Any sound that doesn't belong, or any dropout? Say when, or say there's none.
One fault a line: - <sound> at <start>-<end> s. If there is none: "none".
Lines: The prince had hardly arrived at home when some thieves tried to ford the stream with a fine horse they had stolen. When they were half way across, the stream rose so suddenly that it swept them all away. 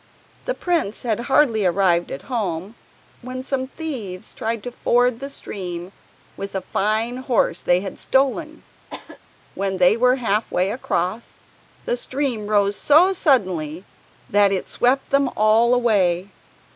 - cough at 8.9-9.2 s